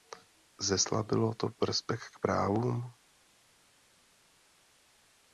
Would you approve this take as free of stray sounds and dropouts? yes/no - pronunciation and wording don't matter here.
yes